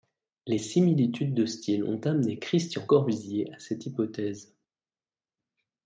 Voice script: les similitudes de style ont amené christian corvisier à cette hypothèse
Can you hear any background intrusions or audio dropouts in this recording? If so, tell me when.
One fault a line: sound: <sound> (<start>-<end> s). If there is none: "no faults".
no faults